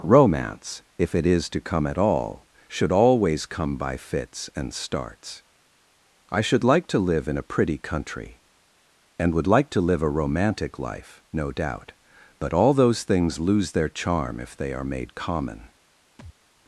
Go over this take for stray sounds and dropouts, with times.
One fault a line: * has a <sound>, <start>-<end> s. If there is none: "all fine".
* has a thud, 16.2-16.3 s